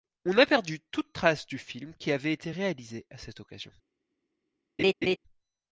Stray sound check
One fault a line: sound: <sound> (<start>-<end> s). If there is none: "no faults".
sound: laugh (4.8-5.2 s)